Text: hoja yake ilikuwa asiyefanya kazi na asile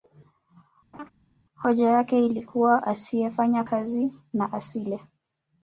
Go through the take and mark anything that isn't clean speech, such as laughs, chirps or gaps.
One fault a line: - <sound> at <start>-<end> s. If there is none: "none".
- laugh at 0.9-1.1 s